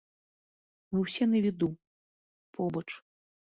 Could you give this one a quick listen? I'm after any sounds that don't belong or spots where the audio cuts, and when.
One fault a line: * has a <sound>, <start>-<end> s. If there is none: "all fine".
all fine